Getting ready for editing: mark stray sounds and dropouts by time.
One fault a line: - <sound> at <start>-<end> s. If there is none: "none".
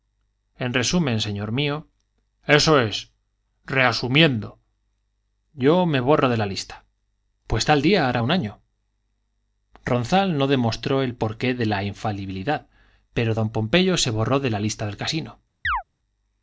- chirp at 15.6-15.8 s